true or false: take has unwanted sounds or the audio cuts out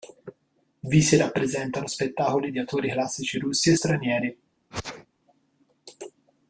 true